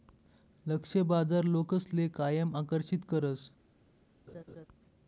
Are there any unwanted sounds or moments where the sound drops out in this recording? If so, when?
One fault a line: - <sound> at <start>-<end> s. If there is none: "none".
- laugh at 4.3-4.7 s